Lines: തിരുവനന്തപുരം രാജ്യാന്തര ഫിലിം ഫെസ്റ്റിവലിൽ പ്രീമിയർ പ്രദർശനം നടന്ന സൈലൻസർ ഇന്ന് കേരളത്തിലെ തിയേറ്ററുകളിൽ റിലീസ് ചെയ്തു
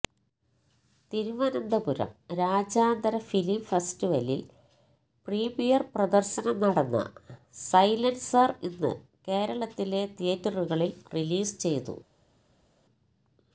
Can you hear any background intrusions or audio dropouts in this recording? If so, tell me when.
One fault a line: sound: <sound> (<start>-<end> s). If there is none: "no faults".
no faults